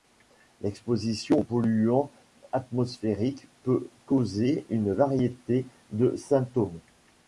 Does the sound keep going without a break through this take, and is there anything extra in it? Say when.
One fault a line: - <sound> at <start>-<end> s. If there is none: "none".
none